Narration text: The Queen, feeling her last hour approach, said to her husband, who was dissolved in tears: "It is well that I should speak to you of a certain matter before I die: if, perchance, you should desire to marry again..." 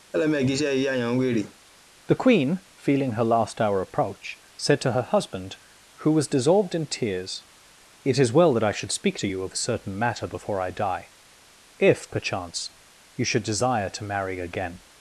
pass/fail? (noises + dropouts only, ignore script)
fail